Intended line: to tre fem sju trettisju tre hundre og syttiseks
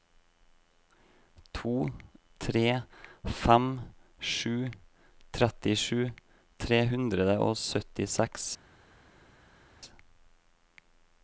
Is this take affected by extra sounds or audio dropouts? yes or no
no